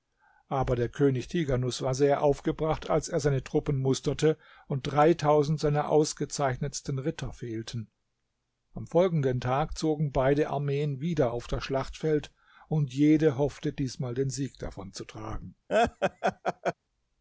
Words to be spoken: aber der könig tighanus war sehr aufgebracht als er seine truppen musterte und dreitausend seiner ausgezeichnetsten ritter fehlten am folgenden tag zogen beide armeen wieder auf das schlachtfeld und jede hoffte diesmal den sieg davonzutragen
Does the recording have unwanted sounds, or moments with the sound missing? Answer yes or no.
yes